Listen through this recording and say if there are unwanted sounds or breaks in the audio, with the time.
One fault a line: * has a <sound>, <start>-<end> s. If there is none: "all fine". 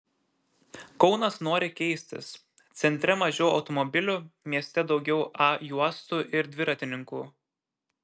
all fine